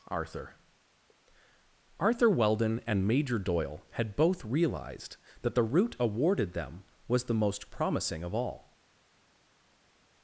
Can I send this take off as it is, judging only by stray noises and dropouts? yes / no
yes